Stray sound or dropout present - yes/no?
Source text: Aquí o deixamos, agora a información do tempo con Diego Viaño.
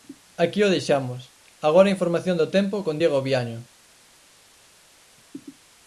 no